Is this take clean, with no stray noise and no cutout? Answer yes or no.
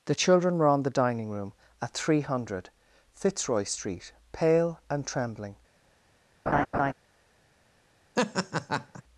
no